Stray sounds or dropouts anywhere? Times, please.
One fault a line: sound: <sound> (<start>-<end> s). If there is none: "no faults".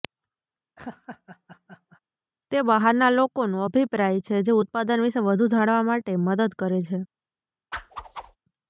sound: laugh (0.8-2.0 s)
sound: whoosh (7.7-8.4 s)